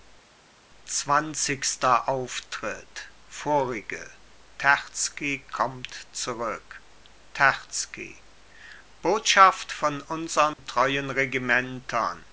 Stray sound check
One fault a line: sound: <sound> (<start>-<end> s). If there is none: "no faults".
sound: dropout (10.5-10.6 s)